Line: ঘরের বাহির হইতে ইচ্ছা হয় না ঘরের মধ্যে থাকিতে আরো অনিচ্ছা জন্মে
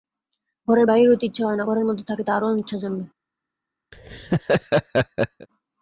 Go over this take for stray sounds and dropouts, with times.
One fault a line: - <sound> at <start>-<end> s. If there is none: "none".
- laugh at 3.9-5.5 s